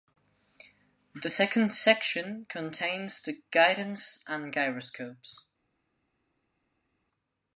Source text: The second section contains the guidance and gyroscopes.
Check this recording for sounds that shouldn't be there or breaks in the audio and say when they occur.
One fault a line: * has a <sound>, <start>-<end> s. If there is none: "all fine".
all fine